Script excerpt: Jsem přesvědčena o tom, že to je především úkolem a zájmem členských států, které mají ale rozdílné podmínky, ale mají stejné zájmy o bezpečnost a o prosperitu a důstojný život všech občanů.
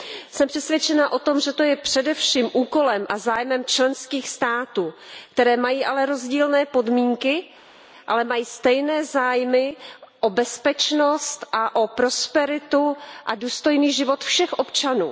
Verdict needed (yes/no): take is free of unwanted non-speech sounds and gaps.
yes